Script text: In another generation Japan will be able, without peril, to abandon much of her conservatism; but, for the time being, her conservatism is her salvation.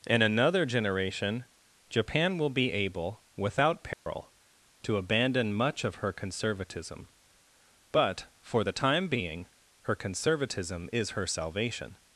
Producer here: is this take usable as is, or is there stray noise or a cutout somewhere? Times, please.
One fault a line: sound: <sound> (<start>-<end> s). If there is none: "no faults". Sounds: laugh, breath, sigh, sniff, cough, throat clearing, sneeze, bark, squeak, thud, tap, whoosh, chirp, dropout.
sound: dropout (3.9-4.1 s)